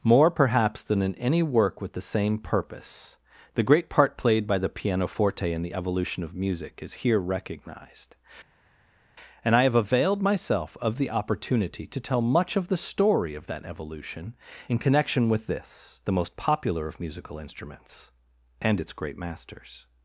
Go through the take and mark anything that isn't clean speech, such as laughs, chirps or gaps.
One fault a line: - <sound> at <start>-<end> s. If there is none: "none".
none